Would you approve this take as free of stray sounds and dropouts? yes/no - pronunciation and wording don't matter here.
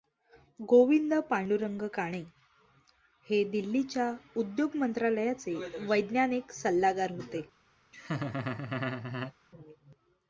no